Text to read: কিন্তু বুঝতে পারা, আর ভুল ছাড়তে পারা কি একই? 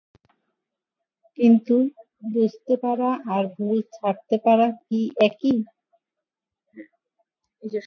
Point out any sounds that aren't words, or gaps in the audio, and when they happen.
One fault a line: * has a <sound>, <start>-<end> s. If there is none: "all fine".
all fine